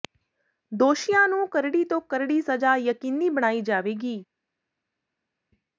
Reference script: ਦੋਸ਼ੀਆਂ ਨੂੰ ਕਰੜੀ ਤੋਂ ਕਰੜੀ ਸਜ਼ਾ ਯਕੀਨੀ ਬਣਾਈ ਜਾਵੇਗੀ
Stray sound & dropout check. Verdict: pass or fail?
pass